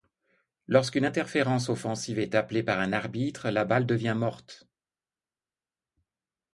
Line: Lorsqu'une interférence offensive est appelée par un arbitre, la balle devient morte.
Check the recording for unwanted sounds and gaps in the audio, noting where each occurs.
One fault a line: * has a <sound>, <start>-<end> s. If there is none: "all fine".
all fine